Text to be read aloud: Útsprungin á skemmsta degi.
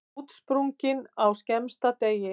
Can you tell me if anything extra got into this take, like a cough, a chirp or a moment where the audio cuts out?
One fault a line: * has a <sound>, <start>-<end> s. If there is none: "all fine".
all fine